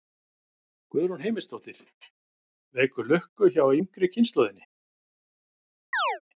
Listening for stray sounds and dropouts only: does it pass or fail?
fail